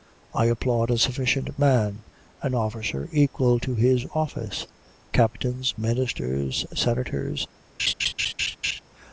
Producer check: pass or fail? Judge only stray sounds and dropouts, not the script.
fail